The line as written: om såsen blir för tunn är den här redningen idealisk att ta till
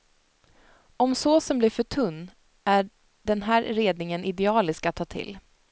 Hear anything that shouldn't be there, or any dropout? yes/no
no